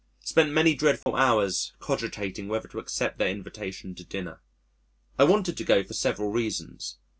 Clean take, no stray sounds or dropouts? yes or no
no